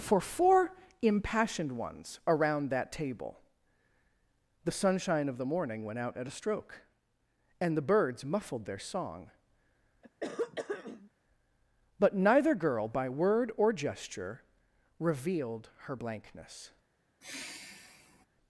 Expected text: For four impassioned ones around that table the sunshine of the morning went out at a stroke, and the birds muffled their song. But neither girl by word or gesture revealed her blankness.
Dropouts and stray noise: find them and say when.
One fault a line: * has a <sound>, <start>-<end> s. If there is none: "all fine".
* has a throat clearing, 10.0-11.1 s
* has a sigh, 17.2-18.3 s